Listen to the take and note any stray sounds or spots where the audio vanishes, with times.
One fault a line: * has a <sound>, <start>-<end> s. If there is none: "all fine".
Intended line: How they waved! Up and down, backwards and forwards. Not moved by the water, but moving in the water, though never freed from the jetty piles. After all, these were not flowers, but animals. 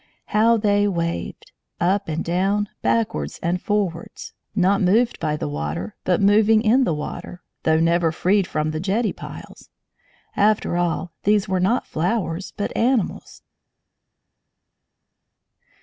all fine